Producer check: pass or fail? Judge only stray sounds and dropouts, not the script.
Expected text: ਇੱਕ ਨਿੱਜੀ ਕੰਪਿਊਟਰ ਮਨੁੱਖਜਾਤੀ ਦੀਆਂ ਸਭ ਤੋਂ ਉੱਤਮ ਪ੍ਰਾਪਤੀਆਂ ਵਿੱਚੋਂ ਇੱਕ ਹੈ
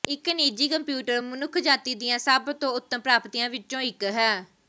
pass